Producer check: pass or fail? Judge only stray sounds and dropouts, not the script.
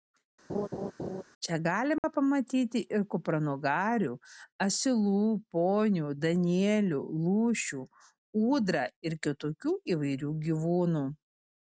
fail